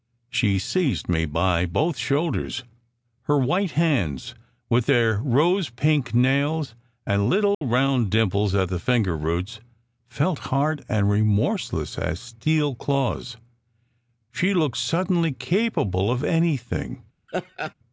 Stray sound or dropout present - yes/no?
yes